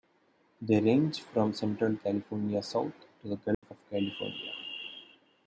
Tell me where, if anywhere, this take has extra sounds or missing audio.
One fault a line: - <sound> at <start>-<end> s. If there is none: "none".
- dropout at 3.5-3.6 s